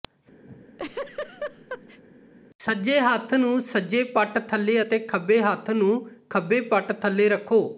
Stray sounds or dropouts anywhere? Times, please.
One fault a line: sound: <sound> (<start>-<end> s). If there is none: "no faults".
sound: laugh (0.5-2.0 s)